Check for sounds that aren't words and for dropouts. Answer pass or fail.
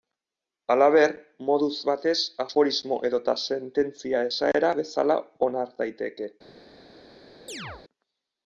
fail